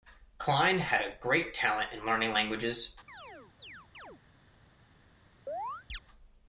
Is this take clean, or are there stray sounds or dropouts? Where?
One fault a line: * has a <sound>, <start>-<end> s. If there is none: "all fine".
* has a chirp, 3.1-4.2 s
* has a chirp, 5.5-6.0 s